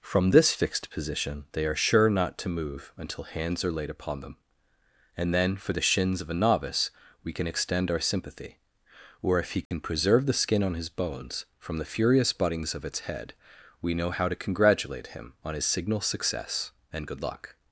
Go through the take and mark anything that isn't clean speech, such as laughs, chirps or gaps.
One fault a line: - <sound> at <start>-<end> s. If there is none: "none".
- dropout at 9.7-9.7 s